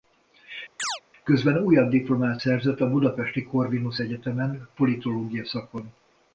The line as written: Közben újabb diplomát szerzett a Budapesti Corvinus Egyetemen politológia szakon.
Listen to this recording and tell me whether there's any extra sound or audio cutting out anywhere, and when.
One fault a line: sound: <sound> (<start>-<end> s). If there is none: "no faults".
sound: chirp (0.8-1.0 s)